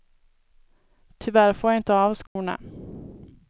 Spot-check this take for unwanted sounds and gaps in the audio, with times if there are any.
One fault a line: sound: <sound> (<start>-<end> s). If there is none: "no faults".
sound: dropout (2.3-2.4 s)